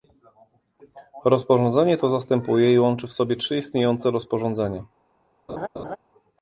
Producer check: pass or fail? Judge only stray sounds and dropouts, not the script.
fail